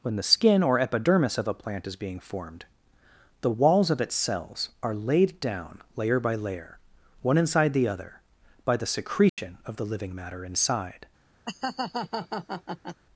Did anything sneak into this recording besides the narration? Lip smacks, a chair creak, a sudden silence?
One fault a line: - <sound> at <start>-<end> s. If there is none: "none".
- dropout at 9.3-9.4 s
- laugh at 11.5-13.0 s